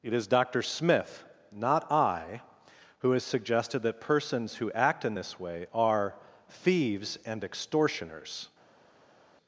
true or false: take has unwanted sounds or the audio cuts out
false